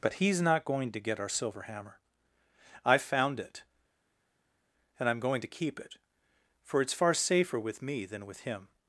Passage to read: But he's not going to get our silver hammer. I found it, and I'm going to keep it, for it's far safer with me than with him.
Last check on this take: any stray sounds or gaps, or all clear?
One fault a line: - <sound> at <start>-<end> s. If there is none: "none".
none